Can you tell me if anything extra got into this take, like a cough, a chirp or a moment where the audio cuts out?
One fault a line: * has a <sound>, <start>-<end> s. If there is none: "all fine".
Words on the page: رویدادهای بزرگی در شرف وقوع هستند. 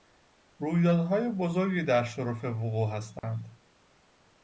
* has a dropout, 3.2-3.2 s